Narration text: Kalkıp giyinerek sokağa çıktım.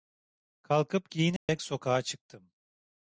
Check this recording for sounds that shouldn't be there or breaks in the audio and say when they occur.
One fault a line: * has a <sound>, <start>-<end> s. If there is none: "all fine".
* has a dropout, 1.4-1.5 s